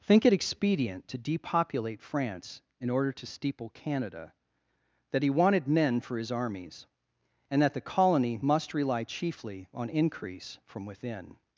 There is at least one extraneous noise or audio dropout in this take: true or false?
false